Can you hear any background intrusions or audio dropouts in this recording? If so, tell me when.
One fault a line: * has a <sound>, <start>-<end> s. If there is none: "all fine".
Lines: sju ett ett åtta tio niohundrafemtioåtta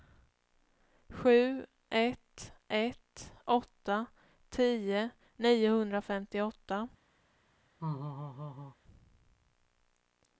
* has a laugh, 7.8-8.8 s